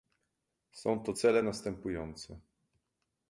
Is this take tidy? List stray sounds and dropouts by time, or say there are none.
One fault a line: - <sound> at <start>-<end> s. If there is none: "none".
none